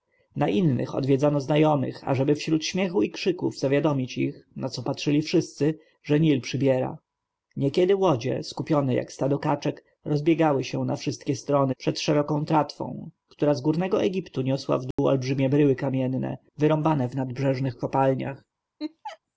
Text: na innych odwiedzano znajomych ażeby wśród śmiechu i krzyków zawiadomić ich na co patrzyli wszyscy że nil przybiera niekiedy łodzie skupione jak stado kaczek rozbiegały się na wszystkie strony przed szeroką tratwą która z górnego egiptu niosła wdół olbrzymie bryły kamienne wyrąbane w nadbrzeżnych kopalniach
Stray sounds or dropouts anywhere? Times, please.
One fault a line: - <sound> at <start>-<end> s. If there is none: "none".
- dropout at 14.9-15.0 s
- laugh at 18.8-19.2 s